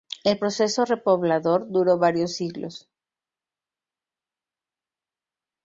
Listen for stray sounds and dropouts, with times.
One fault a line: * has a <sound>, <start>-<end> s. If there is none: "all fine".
all fine